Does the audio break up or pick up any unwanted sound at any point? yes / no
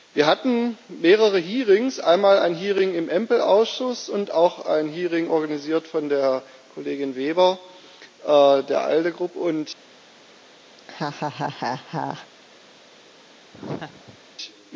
yes